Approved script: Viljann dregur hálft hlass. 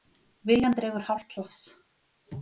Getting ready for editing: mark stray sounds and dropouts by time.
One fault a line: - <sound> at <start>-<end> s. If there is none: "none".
none